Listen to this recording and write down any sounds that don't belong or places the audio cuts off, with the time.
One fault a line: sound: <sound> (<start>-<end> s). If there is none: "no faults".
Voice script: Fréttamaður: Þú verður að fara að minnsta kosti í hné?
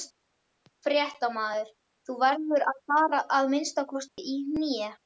sound: dropout (4.1-4.2 s)